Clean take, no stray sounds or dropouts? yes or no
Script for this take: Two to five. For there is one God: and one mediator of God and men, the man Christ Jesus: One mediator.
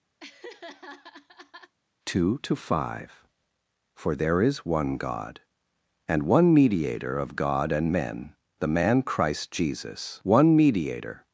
no